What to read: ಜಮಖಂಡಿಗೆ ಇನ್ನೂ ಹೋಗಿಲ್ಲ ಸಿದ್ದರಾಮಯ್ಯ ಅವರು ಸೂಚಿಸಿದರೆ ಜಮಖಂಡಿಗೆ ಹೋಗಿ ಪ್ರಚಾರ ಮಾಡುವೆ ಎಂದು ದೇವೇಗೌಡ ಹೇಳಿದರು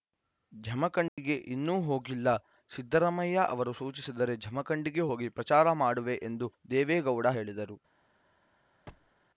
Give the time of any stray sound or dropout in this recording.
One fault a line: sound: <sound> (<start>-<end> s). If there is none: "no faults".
sound: dropout (1.1-1.2 s)
sound: thud (8.9-9.1 s)